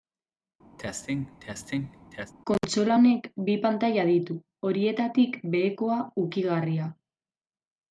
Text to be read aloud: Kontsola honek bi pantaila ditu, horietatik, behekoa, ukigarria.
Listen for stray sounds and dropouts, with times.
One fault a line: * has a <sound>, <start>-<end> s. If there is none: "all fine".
* has a cough, 0.8-2.3 s